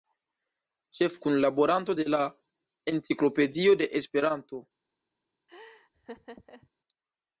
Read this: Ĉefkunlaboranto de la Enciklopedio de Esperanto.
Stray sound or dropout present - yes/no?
yes